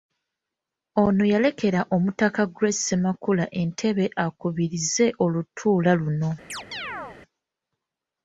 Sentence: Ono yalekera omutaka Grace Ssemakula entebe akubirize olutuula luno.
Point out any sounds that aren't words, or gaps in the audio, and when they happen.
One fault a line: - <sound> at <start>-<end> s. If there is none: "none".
- chirp at 6.5-7.2 s